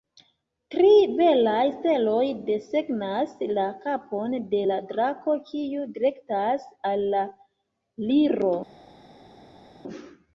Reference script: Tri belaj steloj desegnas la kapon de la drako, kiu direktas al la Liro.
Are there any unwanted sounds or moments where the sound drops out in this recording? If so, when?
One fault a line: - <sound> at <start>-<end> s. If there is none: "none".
none